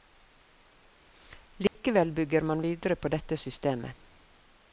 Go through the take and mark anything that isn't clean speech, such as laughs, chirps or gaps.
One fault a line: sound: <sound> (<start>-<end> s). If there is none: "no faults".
sound: dropout (1.7-1.7 s)